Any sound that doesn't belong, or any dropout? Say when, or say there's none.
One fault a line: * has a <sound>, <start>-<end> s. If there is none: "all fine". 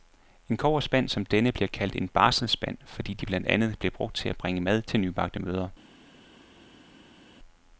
all fine